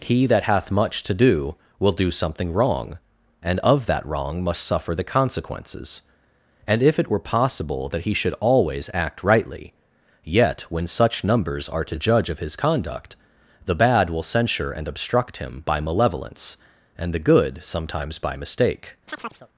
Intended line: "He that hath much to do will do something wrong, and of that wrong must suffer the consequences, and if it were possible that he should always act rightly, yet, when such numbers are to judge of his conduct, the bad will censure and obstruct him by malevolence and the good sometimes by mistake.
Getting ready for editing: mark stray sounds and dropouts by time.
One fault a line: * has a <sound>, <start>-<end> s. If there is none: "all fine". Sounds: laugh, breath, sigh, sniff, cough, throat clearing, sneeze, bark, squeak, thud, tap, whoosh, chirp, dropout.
* has a chirp, 19.1-19.5 s